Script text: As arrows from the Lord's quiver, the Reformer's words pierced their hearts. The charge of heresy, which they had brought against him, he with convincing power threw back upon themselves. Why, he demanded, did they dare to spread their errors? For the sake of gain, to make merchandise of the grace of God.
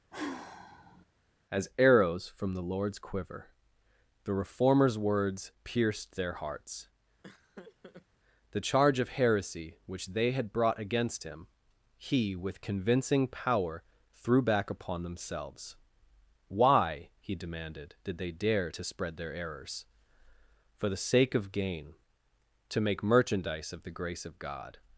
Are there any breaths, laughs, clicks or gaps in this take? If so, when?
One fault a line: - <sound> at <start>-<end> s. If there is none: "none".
- sigh at 0.1-1.1 s
- laugh at 7.2-8.1 s